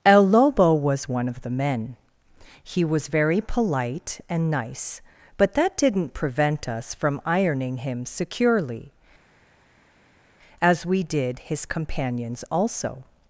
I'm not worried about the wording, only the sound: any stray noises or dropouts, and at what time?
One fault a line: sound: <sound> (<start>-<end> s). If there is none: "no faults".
no faults